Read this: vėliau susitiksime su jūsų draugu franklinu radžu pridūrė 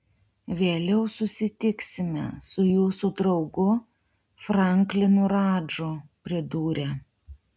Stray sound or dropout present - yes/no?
no